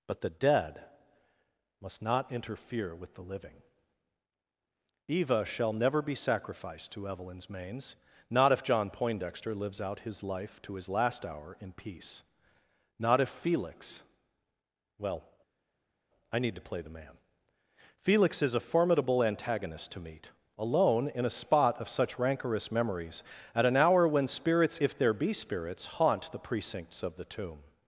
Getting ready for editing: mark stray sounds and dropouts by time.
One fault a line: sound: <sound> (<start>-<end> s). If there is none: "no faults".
no faults